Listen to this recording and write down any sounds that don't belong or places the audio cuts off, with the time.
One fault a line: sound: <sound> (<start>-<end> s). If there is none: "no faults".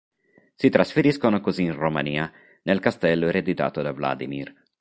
no faults